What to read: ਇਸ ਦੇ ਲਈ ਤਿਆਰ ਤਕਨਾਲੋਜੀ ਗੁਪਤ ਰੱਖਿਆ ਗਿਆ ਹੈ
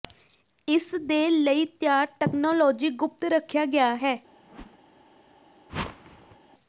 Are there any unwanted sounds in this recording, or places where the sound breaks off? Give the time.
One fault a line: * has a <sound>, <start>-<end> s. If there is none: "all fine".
* has a whoosh, 4.4-4.8 s
* has a whoosh, 5.7-6.4 s